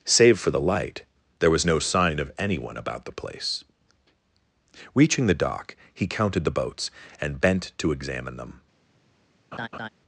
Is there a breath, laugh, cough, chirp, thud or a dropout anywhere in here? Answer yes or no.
yes